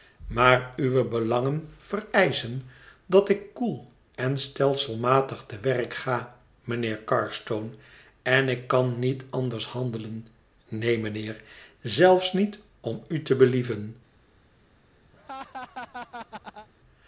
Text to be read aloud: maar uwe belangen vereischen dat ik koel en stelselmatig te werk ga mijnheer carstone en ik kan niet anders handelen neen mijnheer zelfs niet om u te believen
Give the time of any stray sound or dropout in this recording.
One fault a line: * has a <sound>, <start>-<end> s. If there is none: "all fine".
* has a laugh, 15.1-16.7 s